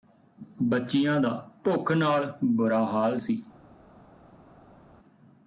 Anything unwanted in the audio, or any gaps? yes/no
no